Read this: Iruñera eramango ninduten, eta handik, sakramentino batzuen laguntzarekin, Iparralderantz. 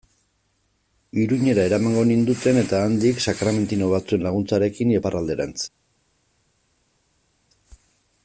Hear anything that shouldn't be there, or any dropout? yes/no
no